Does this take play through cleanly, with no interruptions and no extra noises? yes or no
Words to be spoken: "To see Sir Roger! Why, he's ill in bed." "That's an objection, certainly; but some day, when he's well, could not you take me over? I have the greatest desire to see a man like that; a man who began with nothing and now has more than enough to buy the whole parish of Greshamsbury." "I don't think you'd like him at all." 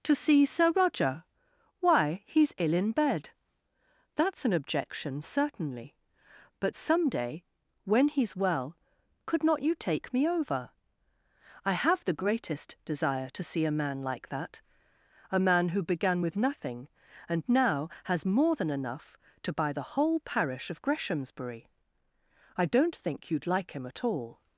yes